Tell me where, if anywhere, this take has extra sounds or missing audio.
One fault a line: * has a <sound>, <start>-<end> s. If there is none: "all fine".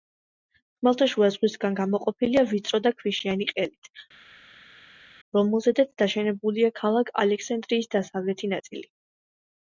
all fine